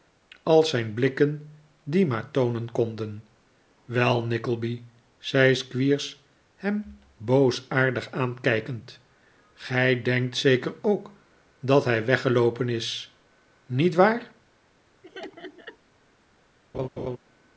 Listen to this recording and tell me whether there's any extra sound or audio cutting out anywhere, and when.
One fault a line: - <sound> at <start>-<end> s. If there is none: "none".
- laugh at 15.0-15.8 s
- laugh at 16.7-17.2 s